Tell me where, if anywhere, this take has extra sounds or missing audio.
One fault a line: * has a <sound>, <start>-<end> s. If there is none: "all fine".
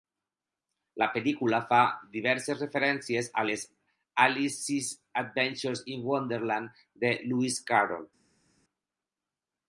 all fine